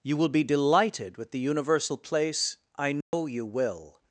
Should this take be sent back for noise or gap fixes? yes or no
yes